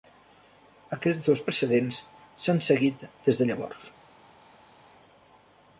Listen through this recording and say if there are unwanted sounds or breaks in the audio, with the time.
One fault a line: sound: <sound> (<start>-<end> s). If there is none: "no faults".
no faults